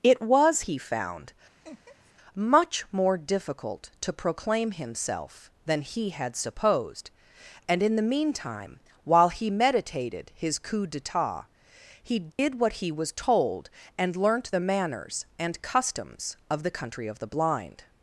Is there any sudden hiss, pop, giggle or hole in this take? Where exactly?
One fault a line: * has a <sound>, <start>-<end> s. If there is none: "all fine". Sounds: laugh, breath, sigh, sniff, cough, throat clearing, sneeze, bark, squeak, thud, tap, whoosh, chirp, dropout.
* has a laugh, 1.6-2.1 s
* has a dropout, 12.3-12.4 s